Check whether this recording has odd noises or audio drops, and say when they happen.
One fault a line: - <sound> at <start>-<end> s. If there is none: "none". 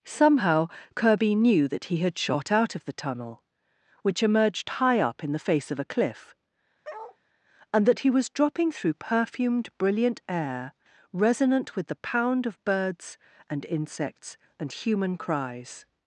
- bark at 6.8-7.2 s